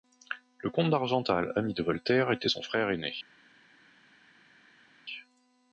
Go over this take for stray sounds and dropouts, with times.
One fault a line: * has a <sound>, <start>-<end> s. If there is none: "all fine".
all fine